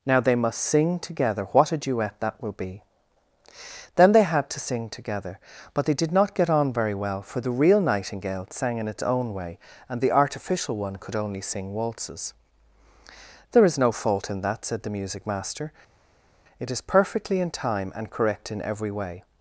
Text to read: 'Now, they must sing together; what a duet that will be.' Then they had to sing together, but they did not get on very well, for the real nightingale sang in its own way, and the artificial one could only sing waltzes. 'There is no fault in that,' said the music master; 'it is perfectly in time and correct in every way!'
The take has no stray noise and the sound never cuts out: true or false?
true